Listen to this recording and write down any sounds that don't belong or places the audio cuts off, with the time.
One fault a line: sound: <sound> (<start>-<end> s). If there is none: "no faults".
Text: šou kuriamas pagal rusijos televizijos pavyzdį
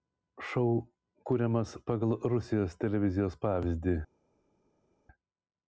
no faults